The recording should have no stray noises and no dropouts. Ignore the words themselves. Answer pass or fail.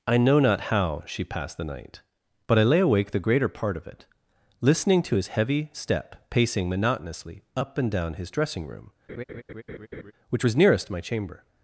fail